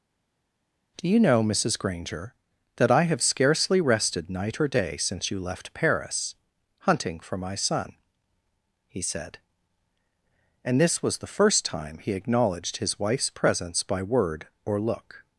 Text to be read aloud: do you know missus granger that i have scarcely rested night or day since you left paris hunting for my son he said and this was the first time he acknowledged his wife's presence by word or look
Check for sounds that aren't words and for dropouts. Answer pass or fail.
pass